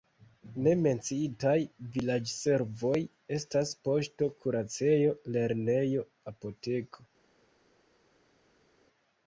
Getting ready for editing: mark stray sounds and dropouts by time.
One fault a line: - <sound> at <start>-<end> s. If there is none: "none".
none